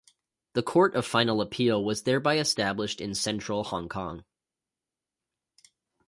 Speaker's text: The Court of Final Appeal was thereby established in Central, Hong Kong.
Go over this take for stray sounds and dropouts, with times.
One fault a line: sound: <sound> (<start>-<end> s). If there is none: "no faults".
no faults